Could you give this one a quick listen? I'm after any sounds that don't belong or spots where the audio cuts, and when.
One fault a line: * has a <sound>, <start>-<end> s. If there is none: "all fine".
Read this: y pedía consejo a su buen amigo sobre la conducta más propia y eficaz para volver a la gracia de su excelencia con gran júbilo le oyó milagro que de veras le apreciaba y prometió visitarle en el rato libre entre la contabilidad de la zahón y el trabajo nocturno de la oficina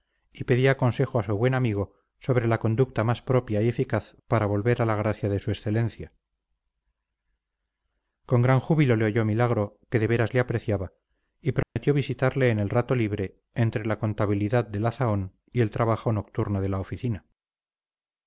* has a dropout, 11.6-11.8 s